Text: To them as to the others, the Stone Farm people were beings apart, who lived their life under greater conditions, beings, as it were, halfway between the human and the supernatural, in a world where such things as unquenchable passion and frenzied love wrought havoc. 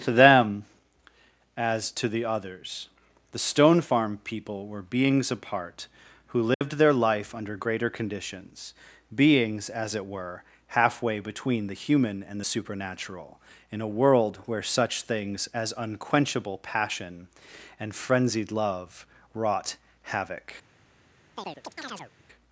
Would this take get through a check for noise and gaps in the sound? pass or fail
fail